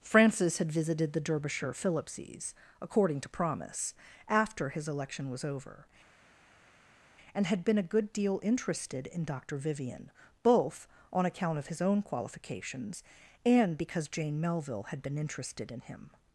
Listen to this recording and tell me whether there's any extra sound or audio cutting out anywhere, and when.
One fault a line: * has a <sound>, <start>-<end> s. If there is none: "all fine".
all fine